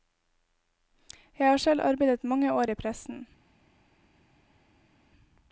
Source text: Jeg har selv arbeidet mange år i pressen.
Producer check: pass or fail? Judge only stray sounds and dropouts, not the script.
pass